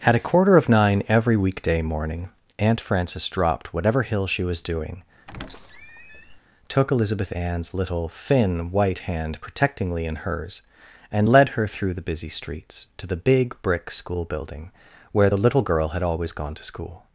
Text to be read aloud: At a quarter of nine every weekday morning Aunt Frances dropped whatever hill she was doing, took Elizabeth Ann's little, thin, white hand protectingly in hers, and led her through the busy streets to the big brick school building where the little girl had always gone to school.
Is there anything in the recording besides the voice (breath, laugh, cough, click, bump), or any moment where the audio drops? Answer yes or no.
yes